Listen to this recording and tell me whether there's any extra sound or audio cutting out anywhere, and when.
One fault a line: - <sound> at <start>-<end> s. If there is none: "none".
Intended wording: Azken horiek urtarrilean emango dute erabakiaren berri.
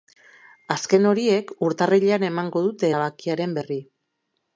none